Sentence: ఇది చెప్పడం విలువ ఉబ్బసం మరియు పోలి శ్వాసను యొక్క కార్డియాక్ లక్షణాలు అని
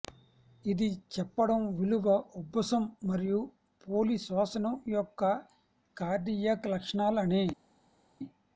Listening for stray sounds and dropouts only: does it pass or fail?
pass